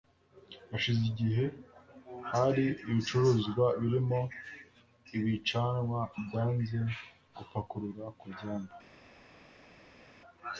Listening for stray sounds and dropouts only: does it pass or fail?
pass